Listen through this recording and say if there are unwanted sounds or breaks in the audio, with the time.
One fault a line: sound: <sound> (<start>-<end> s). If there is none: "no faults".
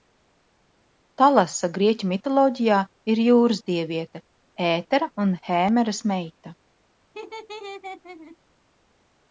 sound: laugh (7.1-8.4 s)